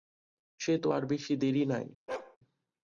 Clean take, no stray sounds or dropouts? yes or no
no